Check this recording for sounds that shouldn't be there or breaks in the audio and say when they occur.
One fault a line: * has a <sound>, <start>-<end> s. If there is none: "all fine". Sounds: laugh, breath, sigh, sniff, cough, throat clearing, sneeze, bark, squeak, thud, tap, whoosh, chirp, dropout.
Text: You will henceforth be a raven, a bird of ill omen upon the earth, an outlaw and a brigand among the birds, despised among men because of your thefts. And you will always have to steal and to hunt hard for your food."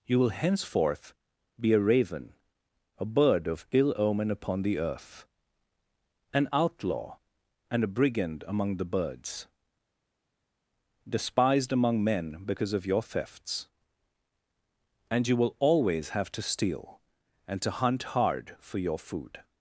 all fine